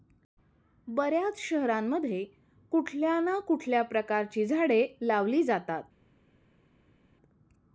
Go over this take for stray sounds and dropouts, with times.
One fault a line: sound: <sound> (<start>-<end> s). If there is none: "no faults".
no faults